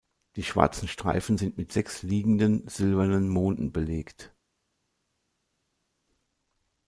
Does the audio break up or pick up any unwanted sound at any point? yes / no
no